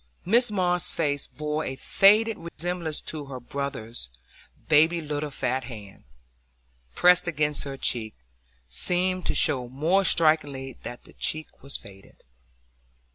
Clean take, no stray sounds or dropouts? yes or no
no